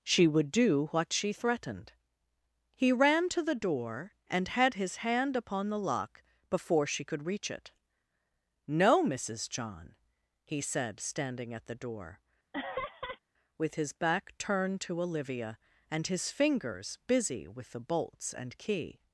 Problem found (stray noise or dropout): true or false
true